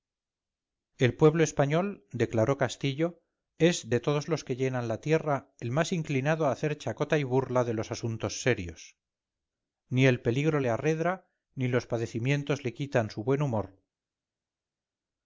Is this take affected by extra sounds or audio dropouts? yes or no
no